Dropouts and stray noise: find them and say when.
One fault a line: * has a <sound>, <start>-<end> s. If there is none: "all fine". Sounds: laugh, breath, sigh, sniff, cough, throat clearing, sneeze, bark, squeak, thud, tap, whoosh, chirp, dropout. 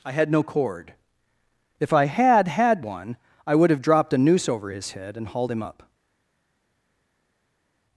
all fine